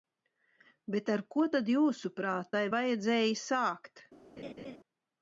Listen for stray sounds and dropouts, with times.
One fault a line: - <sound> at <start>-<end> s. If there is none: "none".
- laugh at 4.4-4.8 s